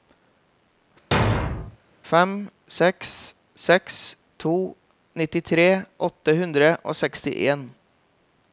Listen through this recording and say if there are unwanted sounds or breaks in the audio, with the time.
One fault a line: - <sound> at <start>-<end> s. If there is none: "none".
- thud at 1.1-1.8 s